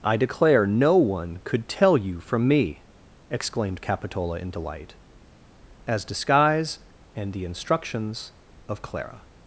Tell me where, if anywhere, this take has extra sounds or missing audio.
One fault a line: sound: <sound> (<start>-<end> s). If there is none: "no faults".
no faults